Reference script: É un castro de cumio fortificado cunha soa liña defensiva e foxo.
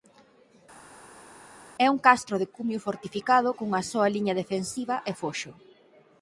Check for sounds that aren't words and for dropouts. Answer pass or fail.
pass